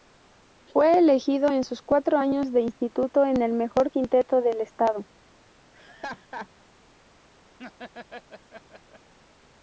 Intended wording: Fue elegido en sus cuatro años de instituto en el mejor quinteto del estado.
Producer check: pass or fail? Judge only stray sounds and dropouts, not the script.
fail